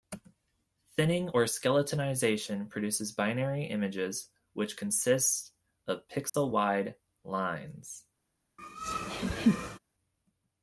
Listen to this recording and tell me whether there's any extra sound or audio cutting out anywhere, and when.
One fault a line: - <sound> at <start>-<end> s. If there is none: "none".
- dropout at 6.3-6.3 s
- laugh at 8.6-9.8 s